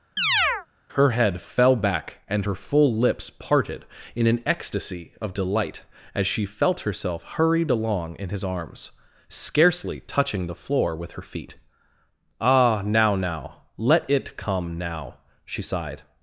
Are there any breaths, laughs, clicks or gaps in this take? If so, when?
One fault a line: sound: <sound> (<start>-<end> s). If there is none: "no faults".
sound: chirp (0.2-0.7 s)